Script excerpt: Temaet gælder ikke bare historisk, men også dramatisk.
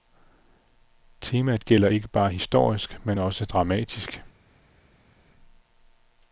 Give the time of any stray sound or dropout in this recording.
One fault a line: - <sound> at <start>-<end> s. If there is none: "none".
none